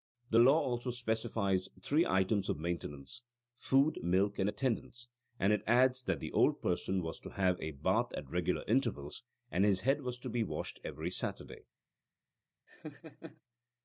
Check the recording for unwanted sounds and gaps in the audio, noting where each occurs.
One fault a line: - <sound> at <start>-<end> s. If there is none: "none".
- laugh at 12.7-13.4 s